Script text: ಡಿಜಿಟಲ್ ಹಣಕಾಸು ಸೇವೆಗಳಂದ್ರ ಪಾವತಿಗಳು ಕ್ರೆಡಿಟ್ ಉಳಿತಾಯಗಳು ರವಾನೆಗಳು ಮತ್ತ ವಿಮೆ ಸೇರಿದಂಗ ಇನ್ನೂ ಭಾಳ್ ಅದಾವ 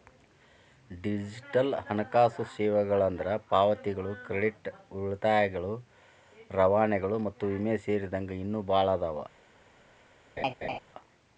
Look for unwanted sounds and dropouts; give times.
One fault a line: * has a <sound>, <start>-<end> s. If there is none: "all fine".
* has a laugh, 10.4-10.8 s